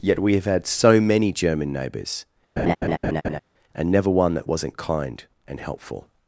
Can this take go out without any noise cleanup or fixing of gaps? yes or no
no